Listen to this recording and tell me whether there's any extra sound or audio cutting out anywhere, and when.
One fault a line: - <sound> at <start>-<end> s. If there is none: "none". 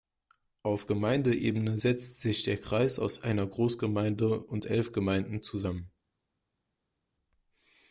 none